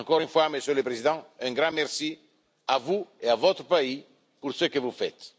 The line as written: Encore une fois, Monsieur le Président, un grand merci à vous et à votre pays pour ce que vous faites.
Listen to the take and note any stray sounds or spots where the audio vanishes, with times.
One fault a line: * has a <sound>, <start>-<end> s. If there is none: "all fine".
all fine